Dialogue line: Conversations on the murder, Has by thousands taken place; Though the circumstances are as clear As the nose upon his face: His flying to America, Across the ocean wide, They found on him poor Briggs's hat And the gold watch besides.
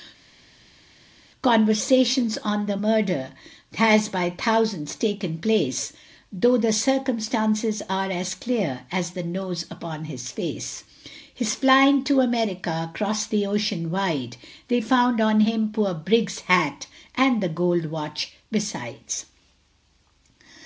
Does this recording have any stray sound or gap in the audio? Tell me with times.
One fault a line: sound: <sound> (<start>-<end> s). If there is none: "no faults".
no faults